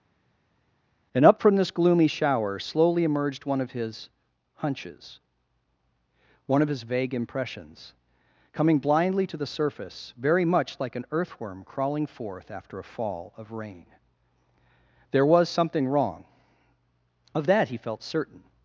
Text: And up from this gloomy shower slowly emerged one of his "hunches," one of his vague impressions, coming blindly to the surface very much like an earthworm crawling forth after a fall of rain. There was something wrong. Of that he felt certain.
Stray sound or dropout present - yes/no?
no